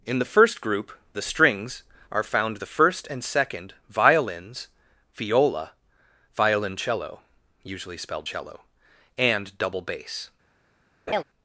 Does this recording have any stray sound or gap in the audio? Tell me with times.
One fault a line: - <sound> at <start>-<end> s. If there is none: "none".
- laugh at 11.1-11.2 s